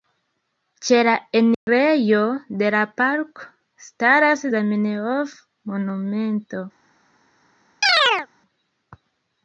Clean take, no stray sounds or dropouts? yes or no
no